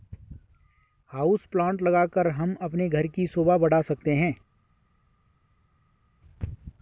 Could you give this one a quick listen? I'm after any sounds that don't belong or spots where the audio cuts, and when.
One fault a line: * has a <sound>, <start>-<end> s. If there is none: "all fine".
all fine